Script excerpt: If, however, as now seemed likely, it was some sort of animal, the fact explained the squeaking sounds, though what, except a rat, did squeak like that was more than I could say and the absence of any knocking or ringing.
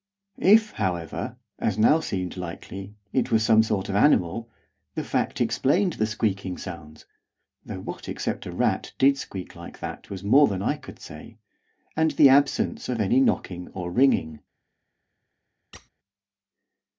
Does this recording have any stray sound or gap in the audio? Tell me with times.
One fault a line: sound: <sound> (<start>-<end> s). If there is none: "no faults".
sound: squeak (15.7-15.9 s)